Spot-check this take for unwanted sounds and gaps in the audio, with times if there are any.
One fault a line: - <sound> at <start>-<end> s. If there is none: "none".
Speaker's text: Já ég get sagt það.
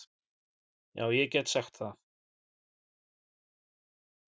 none